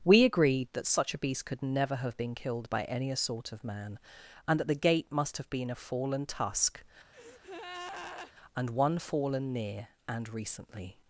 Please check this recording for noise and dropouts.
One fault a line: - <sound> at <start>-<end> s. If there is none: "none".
- breath at 7.1-8.3 s